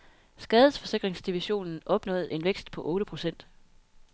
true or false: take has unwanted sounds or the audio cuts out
false